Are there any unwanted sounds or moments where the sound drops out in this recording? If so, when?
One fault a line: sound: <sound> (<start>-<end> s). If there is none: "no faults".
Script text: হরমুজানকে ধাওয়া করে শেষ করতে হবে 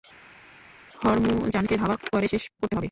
no faults